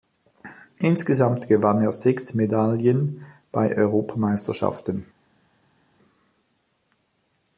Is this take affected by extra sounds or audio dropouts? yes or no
no